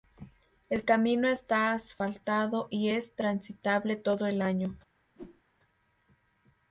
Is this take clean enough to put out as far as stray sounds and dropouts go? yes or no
no